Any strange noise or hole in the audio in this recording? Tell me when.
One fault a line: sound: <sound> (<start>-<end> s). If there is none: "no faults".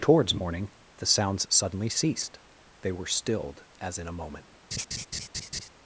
sound: laugh (4.7-5.7 s)